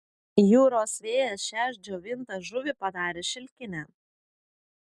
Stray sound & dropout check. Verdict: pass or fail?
pass